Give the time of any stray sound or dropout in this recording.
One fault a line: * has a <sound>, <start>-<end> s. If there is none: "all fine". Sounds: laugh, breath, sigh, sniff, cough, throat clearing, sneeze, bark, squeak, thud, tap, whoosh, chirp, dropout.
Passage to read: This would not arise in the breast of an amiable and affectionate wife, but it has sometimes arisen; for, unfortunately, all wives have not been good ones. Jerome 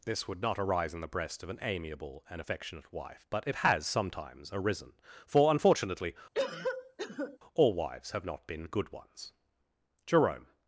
* has a cough, 6.3-7.4 s